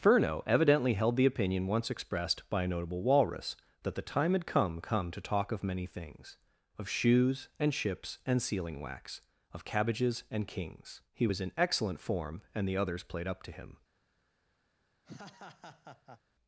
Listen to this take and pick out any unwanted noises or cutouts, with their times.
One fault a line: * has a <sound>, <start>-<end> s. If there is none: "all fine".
* has a laugh, 15.0-16.2 s